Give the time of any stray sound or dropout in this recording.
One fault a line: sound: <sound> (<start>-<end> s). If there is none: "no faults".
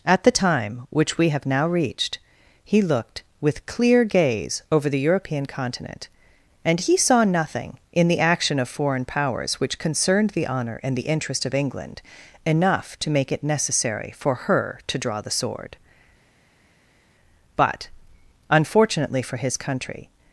no faults